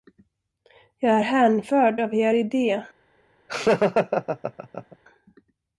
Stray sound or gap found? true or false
true